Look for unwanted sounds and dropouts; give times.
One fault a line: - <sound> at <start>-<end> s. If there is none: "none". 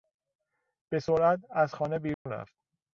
- dropout at 2.1-2.3 s